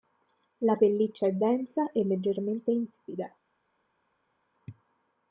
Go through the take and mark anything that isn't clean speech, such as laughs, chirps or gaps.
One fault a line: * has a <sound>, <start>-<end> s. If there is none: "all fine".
all fine